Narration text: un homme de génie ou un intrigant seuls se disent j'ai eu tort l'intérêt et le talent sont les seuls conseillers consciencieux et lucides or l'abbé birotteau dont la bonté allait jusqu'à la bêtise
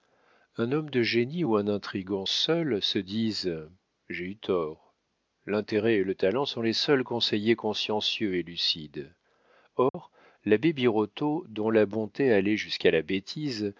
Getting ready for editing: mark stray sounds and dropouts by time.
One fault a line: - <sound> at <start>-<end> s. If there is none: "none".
- dropout at 9.9-9.9 s